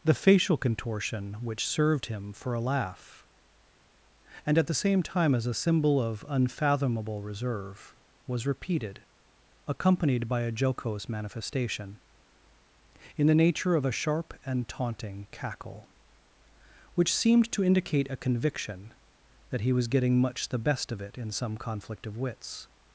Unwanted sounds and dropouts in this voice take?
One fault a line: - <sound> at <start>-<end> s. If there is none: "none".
none